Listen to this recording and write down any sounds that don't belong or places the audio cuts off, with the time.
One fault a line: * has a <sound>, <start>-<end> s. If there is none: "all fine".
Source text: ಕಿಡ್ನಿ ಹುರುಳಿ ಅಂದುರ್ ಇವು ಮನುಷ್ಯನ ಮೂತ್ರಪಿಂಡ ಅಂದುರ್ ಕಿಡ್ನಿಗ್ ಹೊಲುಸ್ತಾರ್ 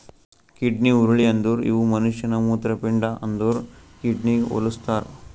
all fine